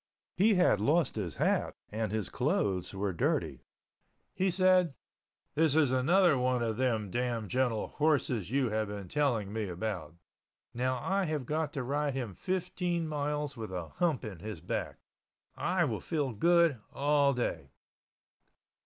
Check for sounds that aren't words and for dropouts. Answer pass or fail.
pass